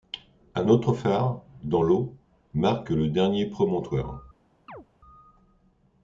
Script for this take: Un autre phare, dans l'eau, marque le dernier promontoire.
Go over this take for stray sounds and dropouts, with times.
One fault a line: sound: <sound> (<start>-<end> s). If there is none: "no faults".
sound: chirp (4.7-4.9 s)